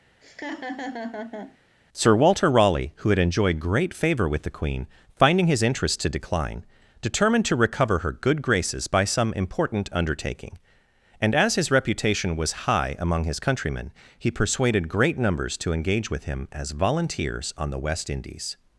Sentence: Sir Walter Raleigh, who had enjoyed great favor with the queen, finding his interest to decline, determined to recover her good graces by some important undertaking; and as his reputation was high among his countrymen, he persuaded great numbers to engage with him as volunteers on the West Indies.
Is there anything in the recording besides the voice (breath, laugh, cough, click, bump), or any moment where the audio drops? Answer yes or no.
yes